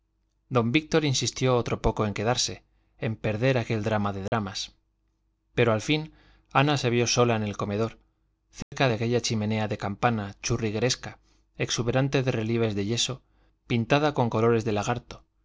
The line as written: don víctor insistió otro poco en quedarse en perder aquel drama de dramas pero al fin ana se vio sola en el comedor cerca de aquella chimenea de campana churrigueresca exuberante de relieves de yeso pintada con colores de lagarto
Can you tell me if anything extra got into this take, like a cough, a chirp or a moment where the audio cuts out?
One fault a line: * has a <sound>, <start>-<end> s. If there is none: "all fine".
* has a dropout, 4.3-4.3 s
* has a dropout, 8.6-8.7 s